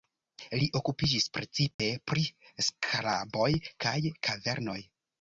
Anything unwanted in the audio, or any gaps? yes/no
yes